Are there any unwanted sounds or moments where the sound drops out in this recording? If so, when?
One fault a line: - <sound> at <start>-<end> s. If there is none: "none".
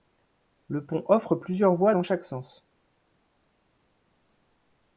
none